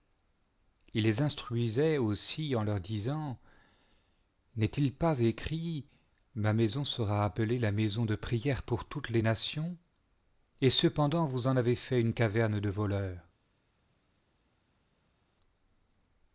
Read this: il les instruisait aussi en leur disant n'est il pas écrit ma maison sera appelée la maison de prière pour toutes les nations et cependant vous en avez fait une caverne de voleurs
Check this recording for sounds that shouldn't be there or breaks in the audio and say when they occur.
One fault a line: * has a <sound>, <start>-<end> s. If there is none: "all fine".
all fine